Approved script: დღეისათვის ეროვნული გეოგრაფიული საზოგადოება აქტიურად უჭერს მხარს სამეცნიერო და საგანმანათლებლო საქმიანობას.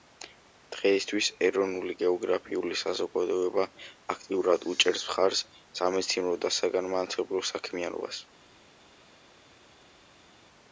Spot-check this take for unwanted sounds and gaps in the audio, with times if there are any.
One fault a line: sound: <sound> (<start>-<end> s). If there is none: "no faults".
no faults